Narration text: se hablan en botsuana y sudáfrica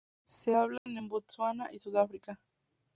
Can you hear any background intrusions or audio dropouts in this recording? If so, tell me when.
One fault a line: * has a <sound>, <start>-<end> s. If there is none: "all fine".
* has a dropout, 0.8-0.9 s